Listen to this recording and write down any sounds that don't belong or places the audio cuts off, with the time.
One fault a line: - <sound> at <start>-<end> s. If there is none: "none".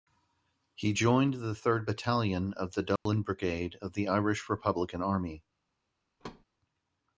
- dropout at 3.0-3.1 s
- thud at 6.2-6.4 s